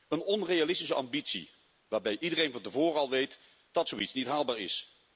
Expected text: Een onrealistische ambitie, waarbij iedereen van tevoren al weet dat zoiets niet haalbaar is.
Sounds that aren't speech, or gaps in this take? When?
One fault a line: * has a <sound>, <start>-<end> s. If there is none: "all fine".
all fine